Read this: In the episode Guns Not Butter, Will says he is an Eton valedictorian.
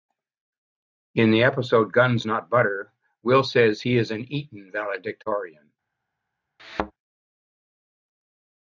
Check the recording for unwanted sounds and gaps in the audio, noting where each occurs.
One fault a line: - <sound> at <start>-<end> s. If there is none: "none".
- thud at 6.6-6.9 s